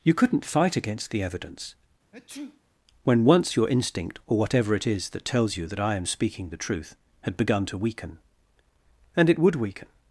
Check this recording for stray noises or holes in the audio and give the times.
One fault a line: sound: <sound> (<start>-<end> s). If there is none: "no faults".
sound: sneeze (2.1-2.6 s)